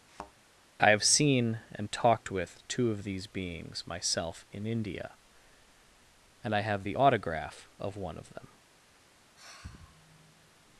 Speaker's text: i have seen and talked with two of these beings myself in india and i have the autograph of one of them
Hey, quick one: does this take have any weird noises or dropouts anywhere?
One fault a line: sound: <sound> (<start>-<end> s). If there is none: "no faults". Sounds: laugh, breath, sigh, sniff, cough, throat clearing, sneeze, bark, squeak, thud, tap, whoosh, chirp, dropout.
sound: thud (0.1-0.3 s)
sound: sigh (9.4-10.6 s)